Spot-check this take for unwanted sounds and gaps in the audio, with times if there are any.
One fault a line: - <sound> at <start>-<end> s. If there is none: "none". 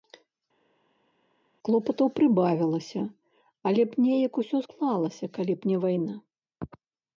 none